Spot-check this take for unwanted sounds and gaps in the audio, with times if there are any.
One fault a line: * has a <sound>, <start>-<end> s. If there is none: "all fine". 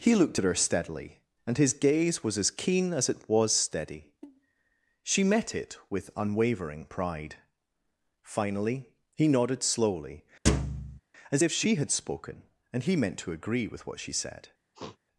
* has a thud, 10.5-11.0 s
* has a sniff, 14.7-15.0 s